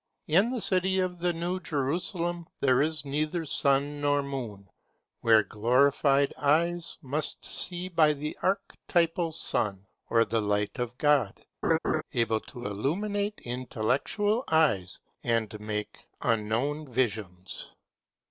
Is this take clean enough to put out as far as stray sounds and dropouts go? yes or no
no